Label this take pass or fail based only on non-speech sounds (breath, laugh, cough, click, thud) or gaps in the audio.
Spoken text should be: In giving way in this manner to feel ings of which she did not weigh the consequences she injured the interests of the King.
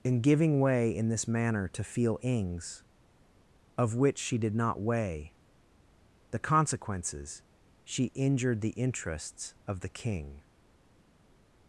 pass